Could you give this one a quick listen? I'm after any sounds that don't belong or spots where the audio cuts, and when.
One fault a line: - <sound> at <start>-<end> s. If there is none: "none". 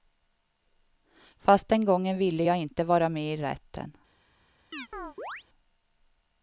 - chirp at 4.7-5.4 s